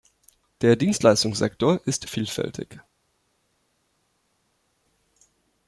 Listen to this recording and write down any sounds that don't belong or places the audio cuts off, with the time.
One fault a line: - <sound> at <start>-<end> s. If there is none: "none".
none